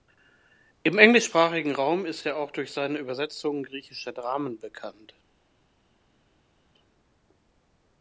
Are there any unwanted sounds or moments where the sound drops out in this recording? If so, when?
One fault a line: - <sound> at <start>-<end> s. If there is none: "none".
none